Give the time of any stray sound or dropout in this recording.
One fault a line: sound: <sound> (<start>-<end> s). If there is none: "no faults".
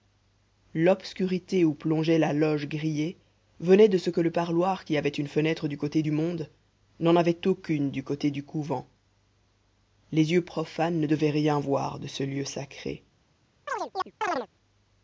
sound: chirp (13.7-14.5 s)